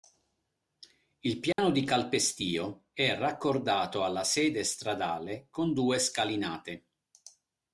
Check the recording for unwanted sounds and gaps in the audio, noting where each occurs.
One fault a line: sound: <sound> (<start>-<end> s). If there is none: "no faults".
sound: dropout (1.5-1.6 s)